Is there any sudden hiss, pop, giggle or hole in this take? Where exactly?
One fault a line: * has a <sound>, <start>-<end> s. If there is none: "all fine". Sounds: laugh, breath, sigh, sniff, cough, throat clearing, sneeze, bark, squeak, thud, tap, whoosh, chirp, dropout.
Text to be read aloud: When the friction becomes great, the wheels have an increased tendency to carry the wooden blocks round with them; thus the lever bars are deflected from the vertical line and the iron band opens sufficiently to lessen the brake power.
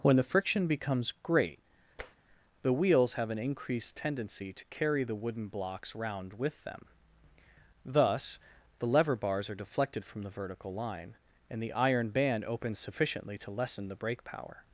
* has a tap, 2.0-2.2 s